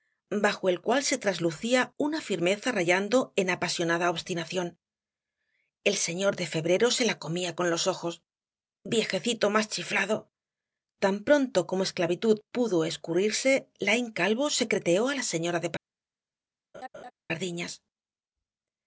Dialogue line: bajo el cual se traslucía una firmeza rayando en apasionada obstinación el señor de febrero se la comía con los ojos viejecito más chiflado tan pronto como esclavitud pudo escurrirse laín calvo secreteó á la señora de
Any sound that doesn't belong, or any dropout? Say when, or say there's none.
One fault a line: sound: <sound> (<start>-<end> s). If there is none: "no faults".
sound: laugh (16.7-17.1 s)